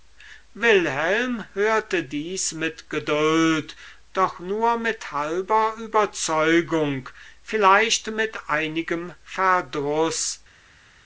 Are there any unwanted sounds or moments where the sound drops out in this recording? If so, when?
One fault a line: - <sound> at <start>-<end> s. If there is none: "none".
none